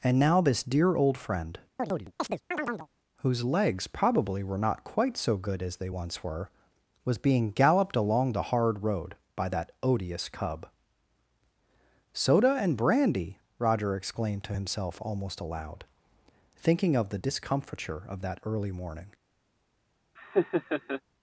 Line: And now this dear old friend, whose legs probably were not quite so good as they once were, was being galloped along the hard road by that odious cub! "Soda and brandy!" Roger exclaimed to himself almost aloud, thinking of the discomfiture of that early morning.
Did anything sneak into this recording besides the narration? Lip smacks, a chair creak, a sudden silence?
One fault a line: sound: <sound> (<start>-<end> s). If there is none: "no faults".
sound: chirp (1.8-2.9 s)
sound: laugh (20.2-21.0 s)